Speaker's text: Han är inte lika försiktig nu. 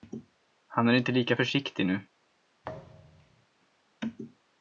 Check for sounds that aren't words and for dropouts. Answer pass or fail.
fail